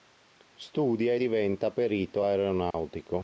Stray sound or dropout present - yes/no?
yes